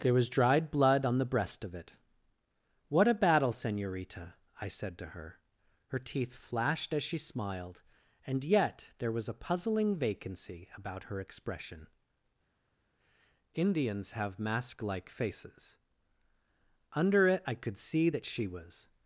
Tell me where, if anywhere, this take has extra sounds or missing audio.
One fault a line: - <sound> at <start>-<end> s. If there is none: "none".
none